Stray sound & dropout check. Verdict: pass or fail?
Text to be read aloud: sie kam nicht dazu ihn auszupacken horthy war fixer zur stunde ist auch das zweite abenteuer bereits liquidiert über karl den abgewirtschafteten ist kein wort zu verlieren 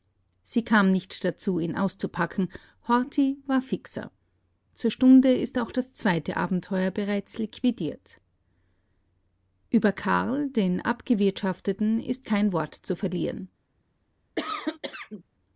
fail